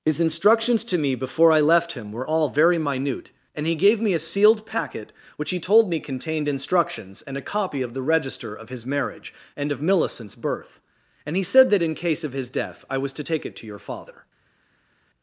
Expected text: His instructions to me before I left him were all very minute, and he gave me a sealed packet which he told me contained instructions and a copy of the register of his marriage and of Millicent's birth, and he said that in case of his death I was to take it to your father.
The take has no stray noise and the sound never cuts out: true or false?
true